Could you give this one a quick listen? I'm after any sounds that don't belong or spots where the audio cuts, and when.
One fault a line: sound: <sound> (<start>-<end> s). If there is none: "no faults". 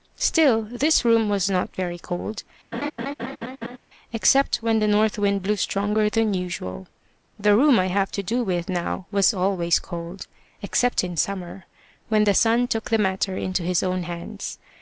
sound: laugh (2.7-3.8 s)